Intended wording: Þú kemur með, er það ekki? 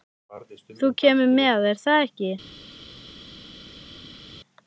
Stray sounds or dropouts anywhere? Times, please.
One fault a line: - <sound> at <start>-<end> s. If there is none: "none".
none